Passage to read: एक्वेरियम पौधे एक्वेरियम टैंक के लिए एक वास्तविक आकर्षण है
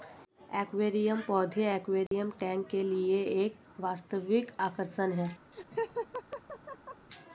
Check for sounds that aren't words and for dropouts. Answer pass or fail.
fail